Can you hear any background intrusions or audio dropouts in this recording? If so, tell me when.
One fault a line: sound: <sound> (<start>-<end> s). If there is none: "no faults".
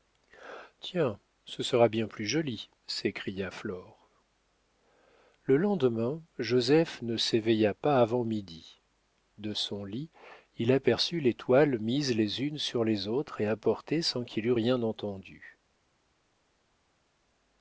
no faults